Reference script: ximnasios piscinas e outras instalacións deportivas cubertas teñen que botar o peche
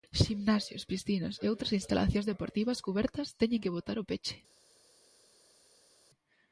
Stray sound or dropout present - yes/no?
no